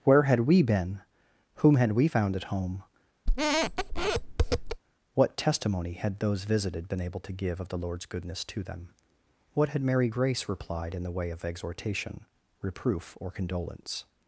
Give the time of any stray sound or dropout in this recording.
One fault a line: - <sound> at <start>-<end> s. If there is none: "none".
- squeak at 3.3-4.8 s